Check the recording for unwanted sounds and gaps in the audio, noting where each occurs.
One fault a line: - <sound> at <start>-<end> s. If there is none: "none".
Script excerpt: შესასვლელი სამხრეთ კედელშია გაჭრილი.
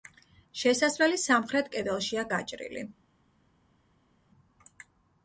none